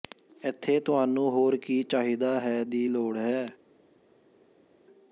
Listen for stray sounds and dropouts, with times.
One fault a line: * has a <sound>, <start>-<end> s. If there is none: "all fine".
all fine